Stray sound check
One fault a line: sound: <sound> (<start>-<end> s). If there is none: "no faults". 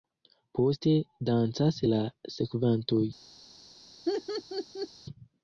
sound: laugh (4.1-4.9 s)